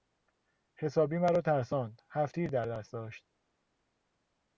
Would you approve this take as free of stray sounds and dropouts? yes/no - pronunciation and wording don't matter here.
yes